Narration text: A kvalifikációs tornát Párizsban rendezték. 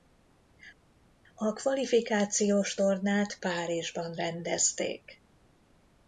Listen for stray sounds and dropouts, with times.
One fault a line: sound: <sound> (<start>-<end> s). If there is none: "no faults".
no faults